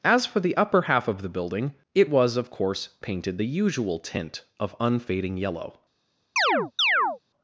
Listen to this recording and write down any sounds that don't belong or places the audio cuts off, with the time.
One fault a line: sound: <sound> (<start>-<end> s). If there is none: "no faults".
sound: chirp (6.4-7.2 s)